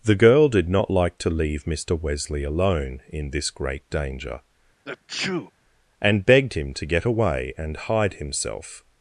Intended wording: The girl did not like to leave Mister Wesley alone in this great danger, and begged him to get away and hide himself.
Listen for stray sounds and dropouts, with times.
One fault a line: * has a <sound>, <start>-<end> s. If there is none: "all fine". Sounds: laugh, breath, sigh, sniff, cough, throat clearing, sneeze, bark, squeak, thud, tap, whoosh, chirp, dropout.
* has a sneeze, 4.9-5.5 s